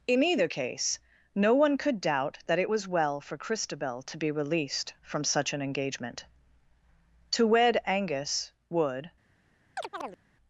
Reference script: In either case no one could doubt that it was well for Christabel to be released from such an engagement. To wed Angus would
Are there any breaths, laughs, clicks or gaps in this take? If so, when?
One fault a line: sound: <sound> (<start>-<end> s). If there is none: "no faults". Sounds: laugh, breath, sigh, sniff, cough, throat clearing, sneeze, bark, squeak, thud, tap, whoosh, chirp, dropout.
sound: chirp (9.8-10.2 s)